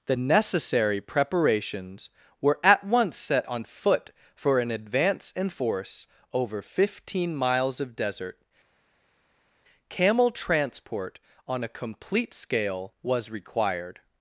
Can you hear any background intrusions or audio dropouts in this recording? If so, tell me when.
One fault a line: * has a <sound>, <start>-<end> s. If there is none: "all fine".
all fine